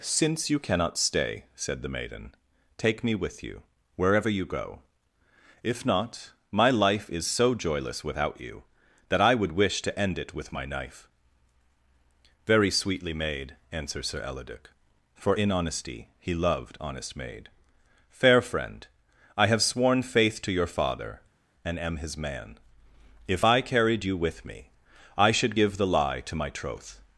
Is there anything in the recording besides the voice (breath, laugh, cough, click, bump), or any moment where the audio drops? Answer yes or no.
no